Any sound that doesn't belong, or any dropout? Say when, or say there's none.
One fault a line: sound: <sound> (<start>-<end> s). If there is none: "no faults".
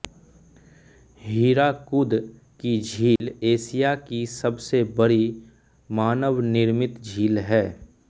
sound: dropout (3.2-3.2 s)